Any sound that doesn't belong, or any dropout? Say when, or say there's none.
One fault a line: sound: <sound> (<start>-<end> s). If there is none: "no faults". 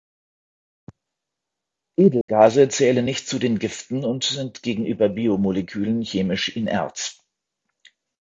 sound: dropout (2.2-2.3 s)